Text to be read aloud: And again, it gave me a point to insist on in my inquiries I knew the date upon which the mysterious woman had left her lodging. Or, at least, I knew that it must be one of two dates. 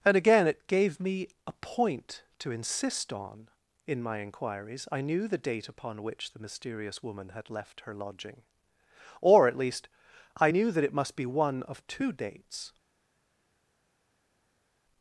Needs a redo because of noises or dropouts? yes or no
no